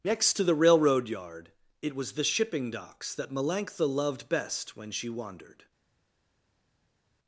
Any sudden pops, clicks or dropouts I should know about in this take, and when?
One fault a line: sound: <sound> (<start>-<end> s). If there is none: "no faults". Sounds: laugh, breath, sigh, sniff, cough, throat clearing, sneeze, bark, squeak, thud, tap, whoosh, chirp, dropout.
no faults